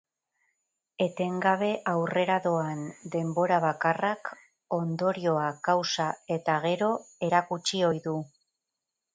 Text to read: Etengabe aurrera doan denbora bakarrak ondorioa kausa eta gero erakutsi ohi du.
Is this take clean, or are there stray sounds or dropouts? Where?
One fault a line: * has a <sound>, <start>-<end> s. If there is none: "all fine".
all fine